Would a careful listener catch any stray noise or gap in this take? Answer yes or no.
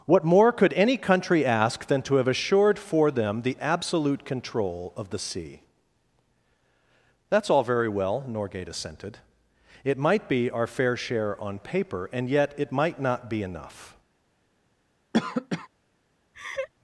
yes